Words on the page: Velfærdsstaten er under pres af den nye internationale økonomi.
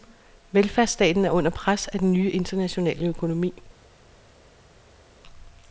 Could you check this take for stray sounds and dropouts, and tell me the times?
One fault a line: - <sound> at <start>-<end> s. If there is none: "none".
none